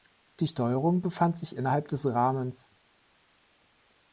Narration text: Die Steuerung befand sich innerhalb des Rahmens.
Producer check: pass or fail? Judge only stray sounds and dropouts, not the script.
pass